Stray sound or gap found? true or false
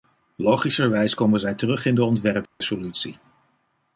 true